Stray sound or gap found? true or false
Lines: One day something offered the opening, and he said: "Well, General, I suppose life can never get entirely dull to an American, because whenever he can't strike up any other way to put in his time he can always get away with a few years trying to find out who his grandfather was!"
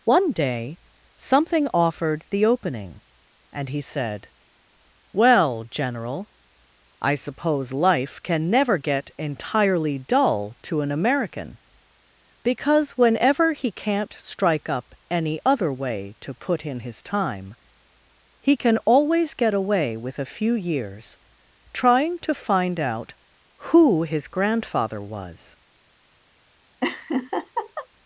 true